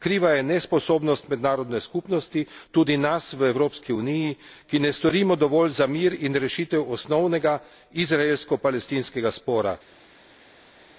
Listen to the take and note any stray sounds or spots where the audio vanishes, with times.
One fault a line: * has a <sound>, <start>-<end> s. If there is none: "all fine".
all fine